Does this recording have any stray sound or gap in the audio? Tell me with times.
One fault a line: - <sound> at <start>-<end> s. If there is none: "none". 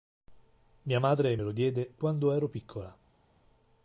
none